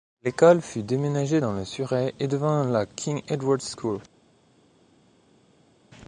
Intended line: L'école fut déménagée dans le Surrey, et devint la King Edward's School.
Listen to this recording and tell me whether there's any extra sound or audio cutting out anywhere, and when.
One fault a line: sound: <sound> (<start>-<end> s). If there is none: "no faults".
no faults